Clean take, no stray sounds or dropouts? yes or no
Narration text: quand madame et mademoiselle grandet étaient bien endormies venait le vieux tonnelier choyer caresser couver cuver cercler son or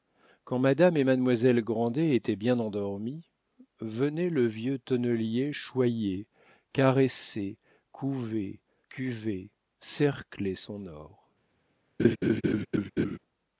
no